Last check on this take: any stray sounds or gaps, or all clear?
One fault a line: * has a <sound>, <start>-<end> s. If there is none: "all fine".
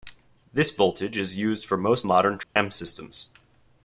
* has a dropout, 2.4-2.6 s